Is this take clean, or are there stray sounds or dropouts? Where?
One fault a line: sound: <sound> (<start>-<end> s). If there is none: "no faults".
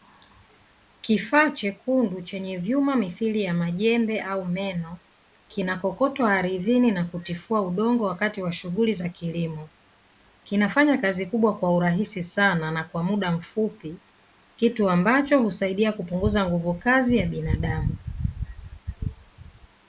no faults